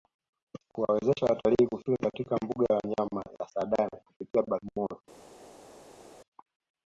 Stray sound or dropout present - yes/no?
no